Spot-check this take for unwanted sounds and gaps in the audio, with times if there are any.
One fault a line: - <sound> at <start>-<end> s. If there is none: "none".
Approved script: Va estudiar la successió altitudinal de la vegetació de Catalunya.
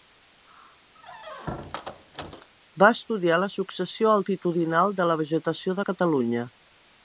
- squeak at 1.0-2.5 s